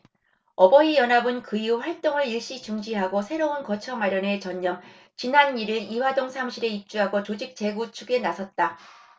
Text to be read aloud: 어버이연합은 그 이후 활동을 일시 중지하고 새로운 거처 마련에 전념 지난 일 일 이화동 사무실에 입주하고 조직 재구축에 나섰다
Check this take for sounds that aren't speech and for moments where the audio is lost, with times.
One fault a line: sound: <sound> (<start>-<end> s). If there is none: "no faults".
no faults